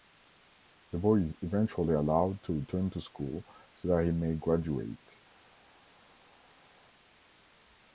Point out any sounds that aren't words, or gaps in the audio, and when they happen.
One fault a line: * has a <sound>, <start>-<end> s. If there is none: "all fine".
all fine